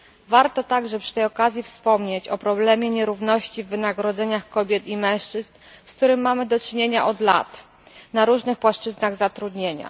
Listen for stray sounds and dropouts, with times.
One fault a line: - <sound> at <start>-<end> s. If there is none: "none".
none